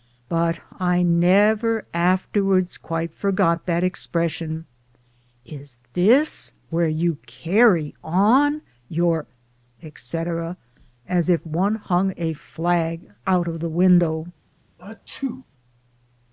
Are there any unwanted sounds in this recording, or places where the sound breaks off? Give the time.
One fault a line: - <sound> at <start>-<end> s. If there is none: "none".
- sneeze at 14.8-15.5 s